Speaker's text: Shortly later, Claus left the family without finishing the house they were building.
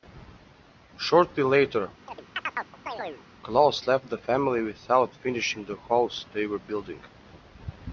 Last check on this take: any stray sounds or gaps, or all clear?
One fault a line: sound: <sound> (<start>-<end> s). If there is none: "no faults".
sound: chirp (2.1-3.2 s)